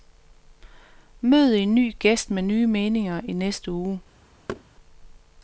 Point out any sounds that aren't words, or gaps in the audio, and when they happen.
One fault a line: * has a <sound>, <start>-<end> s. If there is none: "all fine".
* has a thud, 4.5-4.6 s